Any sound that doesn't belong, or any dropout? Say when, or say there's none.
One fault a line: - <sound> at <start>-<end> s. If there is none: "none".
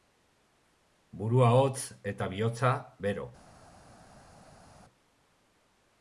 none